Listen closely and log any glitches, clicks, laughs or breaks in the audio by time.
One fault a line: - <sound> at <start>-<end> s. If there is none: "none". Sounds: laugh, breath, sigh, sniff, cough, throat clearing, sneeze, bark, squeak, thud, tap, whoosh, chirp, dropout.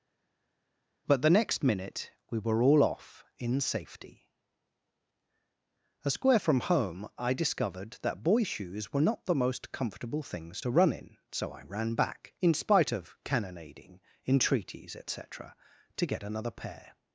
none